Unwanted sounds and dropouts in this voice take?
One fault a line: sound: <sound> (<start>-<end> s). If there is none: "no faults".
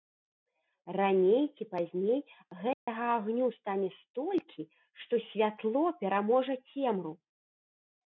sound: dropout (2.7-2.9 s)